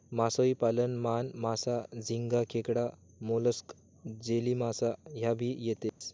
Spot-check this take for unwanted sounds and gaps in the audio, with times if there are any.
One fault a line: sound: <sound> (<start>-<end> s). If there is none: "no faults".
sound: dropout (5.9-6.0 s)